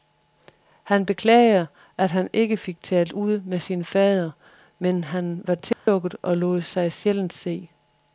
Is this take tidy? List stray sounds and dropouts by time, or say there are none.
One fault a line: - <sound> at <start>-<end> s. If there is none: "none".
- dropout at 5.7-5.9 s